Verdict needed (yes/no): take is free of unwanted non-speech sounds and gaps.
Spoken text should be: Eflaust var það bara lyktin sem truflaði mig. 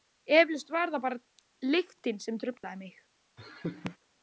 no